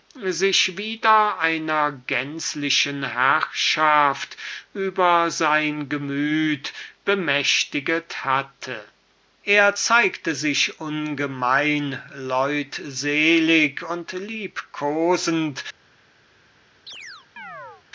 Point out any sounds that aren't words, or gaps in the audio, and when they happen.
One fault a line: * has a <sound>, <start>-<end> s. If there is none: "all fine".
* has a chirp, 16.9-17.8 s